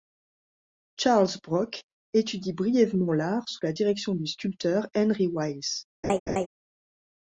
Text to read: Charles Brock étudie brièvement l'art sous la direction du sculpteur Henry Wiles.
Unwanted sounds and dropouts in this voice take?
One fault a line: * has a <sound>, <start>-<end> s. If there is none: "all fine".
* has a laugh, 6.0-6.5 s